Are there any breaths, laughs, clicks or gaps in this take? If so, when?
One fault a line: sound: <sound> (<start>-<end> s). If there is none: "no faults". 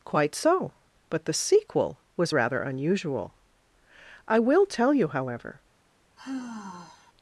sound: sigh (6.2-7.1 s)